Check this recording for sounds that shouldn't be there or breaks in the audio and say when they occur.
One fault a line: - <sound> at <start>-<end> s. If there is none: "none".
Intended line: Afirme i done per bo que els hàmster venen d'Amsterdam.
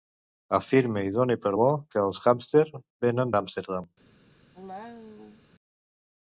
- cough at 4.5-5.4 s